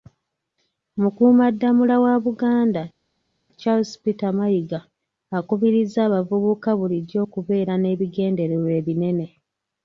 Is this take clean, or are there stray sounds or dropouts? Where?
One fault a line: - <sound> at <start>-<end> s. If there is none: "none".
none